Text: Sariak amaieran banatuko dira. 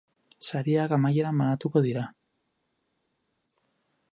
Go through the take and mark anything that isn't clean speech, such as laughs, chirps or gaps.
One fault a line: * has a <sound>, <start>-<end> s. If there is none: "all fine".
all fine